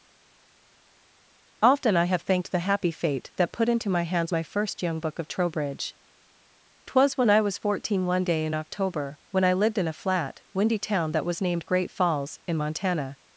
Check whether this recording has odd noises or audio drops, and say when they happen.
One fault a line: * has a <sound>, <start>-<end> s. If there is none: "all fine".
all fine